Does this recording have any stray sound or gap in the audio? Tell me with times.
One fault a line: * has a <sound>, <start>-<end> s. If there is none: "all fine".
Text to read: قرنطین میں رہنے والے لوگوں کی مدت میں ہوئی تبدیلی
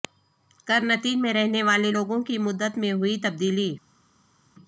all fine